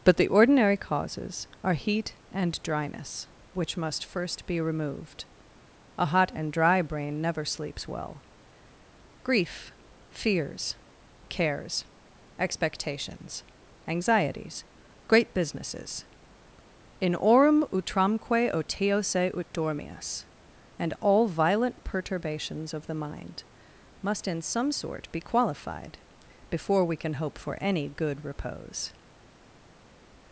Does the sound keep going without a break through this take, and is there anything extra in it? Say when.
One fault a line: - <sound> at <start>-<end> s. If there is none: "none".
none